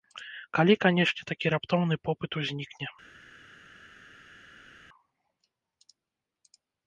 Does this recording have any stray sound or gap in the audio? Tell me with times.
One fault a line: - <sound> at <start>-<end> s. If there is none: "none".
none